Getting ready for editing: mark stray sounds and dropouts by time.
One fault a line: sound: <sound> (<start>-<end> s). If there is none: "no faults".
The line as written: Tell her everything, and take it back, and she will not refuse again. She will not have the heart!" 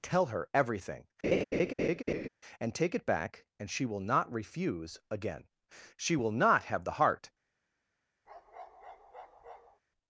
sound: laugh (1.2-2.3 s)
sound: bark (8.3-9.8 s)